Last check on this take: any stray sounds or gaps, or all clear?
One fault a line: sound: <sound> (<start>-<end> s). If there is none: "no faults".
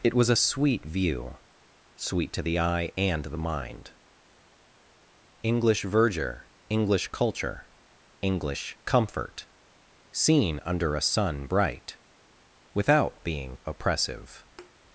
sound: thud (14.6-14.7 s)